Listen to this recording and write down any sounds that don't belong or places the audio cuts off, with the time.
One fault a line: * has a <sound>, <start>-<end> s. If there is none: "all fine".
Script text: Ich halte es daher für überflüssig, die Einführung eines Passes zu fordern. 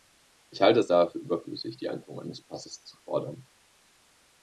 all fine